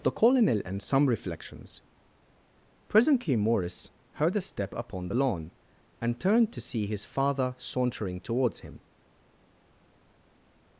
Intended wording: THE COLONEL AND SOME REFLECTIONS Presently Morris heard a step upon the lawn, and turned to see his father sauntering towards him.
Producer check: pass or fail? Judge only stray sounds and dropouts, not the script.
pass